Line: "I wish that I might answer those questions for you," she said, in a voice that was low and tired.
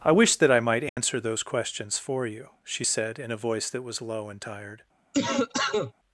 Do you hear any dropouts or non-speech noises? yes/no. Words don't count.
yes